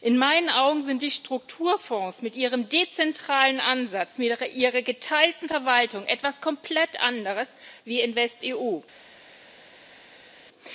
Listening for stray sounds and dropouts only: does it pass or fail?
pass